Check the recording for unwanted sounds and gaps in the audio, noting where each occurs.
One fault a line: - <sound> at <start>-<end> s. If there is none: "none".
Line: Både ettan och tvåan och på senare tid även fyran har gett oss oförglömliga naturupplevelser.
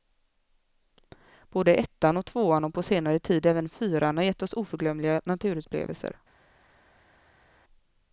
none